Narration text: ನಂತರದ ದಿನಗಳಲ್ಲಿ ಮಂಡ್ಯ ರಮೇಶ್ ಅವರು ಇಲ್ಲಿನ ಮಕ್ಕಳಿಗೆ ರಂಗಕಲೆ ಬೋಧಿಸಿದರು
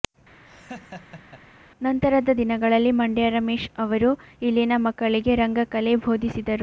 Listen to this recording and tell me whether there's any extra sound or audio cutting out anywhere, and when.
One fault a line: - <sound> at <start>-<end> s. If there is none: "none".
- laugh at 0.4-1.4 s